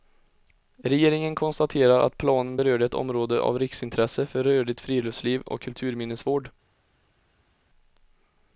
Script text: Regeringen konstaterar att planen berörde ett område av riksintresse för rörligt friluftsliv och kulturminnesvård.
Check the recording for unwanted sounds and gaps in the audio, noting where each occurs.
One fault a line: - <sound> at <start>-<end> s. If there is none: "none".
none